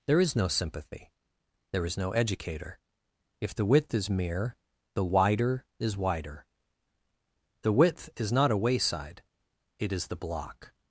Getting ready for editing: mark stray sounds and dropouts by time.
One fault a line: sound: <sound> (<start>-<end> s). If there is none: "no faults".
no faults